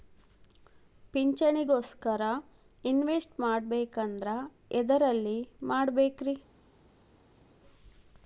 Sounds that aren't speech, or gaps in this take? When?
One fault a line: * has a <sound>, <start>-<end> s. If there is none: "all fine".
all fine